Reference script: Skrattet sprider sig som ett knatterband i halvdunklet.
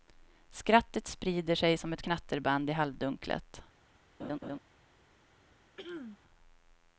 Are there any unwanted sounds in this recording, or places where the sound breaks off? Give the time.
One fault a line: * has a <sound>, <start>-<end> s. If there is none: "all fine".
* has a laugh, 4.2-4.6 s
* has a throat clearing, 5.8-6.2 s